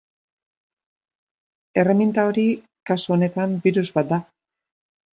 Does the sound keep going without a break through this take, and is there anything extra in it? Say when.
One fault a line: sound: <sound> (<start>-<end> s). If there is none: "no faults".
no faults